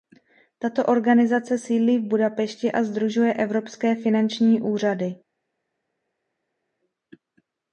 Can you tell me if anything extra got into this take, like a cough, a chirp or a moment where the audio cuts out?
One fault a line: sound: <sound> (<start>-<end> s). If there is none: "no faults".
no faults